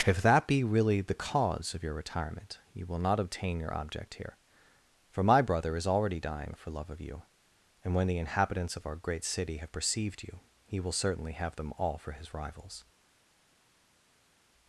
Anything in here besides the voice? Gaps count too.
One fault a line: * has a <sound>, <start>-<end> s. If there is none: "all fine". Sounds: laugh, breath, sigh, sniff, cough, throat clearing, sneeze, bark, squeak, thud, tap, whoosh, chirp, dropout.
all fine